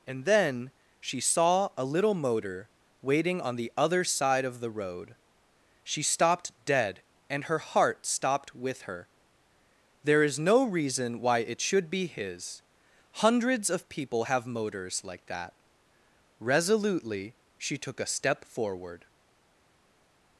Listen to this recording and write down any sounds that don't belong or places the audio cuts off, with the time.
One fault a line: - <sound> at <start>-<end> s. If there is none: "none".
none